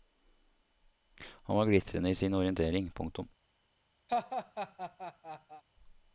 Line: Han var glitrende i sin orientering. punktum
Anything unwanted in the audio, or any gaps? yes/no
yes